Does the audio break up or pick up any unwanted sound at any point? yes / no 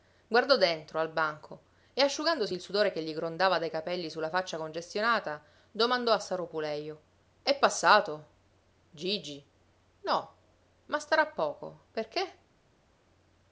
no